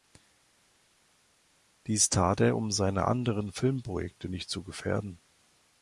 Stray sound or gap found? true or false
false